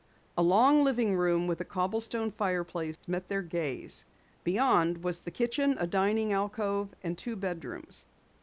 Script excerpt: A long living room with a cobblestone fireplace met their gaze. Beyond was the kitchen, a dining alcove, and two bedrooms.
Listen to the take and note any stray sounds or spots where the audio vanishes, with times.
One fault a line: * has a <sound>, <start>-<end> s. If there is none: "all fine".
* has a dropout, 3.0-3.0 s